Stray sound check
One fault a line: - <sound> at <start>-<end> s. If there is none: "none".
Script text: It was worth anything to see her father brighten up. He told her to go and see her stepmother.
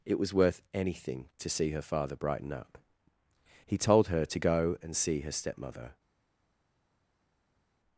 none